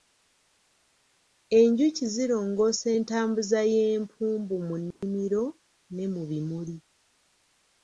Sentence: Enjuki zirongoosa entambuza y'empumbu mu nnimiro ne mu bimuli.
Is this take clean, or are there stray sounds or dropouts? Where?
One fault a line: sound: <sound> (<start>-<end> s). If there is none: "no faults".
sound: dropout (4.9-5.0 s)